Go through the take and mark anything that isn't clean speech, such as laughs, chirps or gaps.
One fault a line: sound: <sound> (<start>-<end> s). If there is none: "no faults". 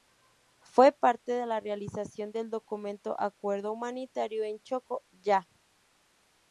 no faults